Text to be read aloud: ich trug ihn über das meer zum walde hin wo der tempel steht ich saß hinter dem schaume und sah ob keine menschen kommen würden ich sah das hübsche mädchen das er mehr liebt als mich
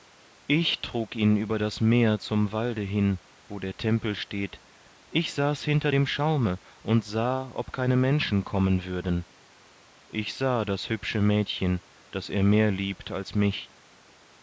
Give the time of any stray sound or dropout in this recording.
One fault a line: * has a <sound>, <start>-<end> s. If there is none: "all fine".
all fine